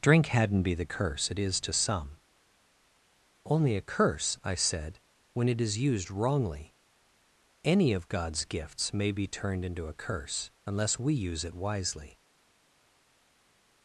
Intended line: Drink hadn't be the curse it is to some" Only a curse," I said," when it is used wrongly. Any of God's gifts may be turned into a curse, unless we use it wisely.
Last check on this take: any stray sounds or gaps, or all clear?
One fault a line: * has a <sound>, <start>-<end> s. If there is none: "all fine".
all fine